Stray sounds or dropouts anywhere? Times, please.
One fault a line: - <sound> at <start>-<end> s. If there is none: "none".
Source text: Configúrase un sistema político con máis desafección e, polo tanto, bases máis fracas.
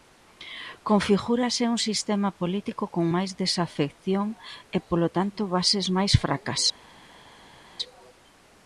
none